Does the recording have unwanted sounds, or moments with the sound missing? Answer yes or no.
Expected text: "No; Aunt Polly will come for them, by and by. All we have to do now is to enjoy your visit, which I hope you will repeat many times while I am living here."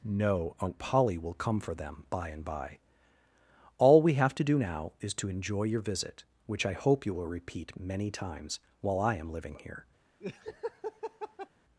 yes